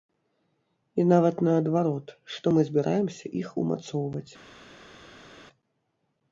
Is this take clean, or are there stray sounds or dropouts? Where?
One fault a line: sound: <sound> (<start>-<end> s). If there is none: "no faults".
no faults